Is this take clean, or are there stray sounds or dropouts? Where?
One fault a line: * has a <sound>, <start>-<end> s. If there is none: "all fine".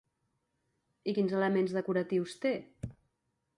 all fine